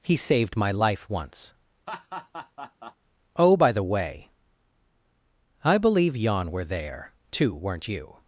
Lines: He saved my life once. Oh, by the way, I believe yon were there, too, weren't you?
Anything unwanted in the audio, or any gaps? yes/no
yes